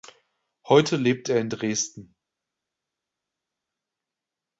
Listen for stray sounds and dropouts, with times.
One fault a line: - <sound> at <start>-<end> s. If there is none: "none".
none